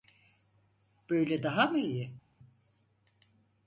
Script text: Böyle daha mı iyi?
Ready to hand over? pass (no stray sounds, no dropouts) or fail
pass